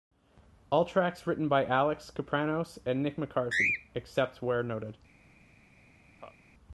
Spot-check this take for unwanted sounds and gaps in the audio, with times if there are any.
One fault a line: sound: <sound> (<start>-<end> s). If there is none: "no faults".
sound: laugh (6.2-6.4 s)